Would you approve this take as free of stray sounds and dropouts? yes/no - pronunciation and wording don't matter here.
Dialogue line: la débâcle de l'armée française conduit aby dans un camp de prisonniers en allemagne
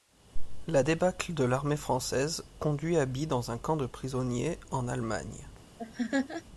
no